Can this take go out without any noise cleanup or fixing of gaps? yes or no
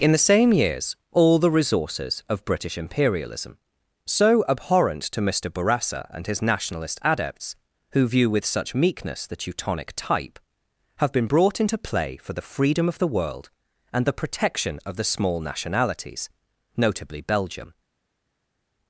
yes